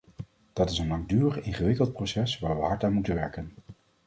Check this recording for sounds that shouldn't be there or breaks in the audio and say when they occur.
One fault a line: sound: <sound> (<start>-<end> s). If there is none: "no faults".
no faults